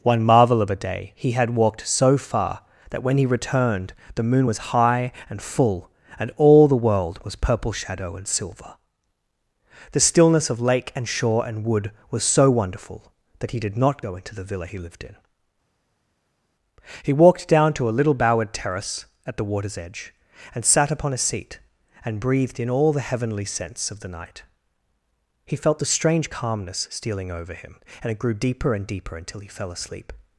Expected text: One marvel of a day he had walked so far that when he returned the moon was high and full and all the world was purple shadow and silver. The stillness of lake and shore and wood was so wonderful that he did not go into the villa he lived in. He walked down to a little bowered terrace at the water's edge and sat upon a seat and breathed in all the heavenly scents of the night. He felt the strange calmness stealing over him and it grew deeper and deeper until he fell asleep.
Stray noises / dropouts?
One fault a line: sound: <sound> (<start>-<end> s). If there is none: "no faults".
no faults